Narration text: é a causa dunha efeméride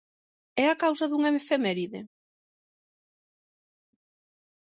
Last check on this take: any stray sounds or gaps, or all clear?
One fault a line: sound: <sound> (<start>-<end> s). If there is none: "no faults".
no faults